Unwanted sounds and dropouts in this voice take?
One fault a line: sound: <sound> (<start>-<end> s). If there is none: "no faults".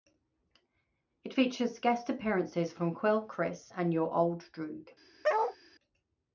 sound: bark (5.2-5.6 s)